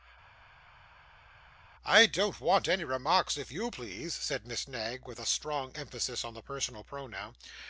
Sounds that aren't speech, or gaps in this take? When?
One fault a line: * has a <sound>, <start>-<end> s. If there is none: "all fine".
all fine